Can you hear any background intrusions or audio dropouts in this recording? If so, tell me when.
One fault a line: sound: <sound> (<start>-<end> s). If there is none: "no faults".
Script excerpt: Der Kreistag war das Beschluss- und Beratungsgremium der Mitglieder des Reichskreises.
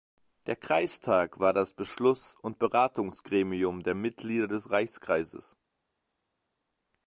no faults